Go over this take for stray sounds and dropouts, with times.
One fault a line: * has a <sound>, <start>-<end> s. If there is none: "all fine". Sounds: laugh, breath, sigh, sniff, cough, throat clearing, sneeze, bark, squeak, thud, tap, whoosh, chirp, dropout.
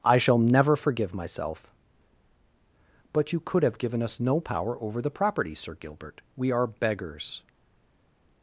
all fine